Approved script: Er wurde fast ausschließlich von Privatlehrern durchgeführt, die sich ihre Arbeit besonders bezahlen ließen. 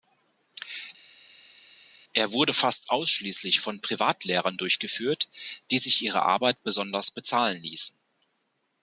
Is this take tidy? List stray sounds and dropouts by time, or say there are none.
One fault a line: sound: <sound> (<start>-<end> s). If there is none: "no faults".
no faults